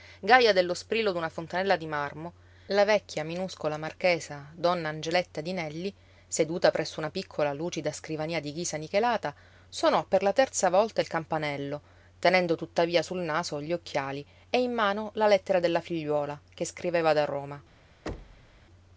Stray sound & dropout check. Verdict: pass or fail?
fail